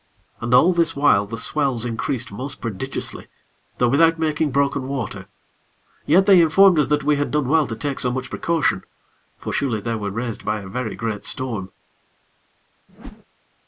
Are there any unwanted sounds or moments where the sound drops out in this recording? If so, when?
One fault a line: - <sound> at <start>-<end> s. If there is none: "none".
- whoosh at 12.9-13.2 s